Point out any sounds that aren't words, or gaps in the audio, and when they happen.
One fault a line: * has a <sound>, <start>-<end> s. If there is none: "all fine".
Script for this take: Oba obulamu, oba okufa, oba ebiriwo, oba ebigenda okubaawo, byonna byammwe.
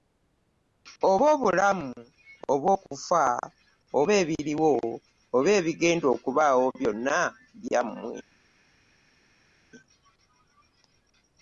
all fine